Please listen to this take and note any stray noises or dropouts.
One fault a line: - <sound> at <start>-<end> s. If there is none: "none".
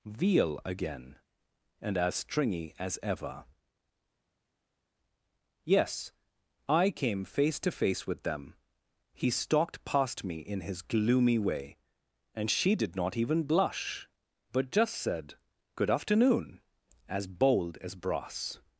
none